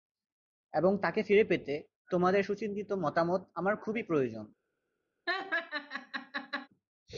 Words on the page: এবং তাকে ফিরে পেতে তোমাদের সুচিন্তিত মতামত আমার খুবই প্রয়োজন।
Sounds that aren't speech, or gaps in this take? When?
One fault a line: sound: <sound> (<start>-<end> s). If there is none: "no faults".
sound: laugh (5.3-6.7 s)